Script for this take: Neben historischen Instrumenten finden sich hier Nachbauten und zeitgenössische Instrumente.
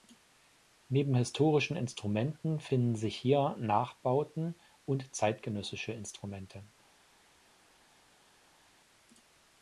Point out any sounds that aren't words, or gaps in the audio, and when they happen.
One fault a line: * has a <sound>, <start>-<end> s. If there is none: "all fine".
all fine